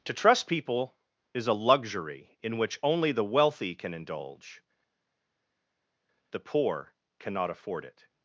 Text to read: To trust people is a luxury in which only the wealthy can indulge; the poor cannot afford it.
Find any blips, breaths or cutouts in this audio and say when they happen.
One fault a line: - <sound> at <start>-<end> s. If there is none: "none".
none